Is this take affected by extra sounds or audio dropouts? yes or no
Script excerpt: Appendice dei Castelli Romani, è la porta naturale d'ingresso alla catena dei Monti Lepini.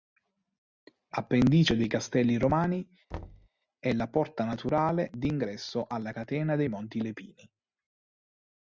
yes